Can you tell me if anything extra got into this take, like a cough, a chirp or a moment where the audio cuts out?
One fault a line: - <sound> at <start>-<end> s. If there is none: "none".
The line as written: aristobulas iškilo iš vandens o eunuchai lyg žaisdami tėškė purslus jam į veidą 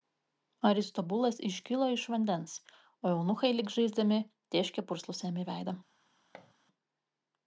- thud at 6.3-6.5 s